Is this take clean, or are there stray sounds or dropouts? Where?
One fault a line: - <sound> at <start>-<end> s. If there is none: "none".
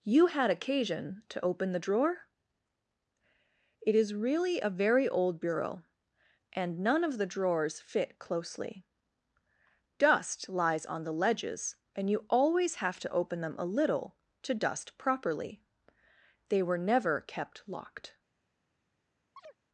- chirp at 19.4-19.6 s